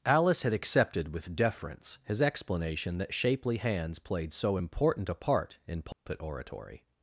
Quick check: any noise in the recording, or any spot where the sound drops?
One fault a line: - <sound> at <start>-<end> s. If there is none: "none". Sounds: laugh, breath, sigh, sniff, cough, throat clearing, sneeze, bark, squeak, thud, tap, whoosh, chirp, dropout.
- dropout at 5.9-6.1 s